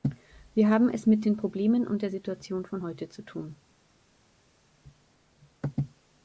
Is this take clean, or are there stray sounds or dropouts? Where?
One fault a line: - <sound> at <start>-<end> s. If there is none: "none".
none